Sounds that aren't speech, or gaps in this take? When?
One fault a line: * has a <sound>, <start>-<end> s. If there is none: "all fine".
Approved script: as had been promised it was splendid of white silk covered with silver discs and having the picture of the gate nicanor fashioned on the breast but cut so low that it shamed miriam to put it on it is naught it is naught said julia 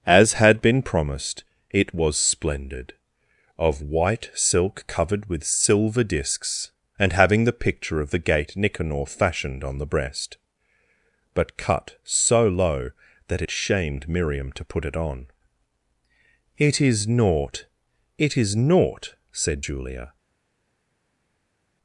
all fine